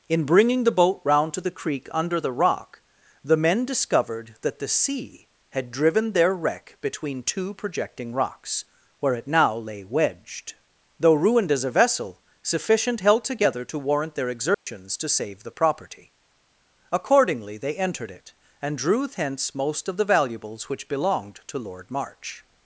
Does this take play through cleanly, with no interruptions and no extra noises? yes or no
no